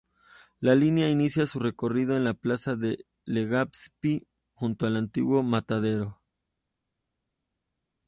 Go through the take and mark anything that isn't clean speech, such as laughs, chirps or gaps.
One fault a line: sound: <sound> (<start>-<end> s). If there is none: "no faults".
no faults